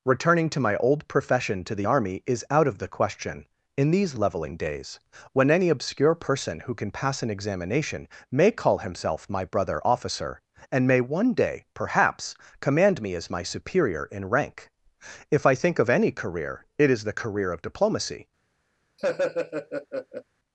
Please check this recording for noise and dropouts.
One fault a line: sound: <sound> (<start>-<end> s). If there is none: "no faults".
sound: laugh (19.0-20.2 s)